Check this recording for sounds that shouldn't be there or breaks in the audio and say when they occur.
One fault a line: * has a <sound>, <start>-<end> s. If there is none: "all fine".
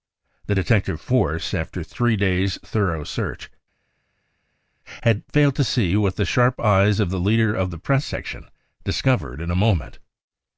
all fine